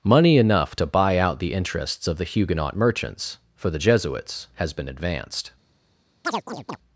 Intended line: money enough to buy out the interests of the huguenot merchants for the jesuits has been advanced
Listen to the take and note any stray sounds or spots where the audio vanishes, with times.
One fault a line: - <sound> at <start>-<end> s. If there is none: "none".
- chirp at 6.2-6.8 s